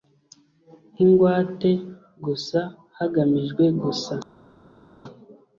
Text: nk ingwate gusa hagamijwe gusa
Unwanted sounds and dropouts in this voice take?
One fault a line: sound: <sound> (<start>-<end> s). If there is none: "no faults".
no faults